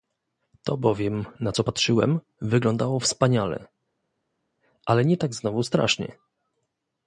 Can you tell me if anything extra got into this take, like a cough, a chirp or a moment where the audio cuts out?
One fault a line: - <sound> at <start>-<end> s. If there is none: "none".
none